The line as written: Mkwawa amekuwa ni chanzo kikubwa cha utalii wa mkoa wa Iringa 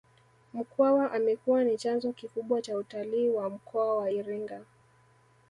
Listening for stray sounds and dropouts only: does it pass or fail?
pass